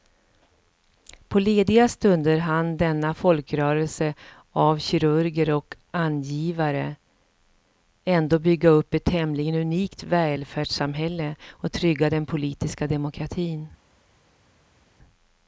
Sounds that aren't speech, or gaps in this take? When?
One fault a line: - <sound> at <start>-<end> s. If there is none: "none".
none